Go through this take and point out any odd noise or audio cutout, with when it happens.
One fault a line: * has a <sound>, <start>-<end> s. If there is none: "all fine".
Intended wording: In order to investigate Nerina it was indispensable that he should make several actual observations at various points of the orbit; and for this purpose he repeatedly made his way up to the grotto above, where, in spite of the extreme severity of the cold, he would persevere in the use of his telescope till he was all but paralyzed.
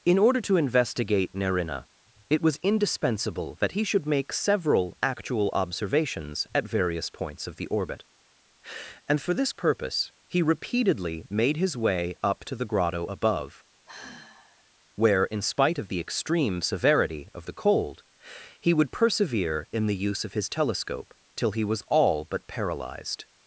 * has a sigh, 13.9-14.7 s